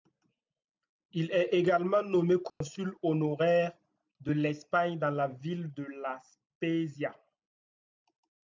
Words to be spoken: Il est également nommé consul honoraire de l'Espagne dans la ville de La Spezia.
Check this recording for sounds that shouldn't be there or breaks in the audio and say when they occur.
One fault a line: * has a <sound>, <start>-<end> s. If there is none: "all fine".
* has a dropout, 2.5-2.6 s